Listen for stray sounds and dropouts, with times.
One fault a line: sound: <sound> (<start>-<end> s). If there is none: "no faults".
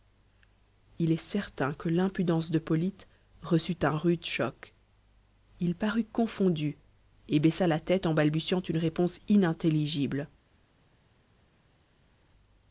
no faults